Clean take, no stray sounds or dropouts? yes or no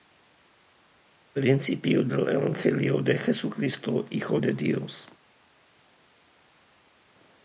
yes